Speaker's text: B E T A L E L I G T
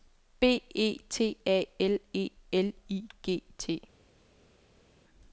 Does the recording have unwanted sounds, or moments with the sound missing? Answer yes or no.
no